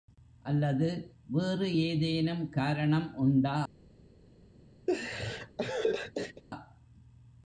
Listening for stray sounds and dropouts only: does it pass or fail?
fail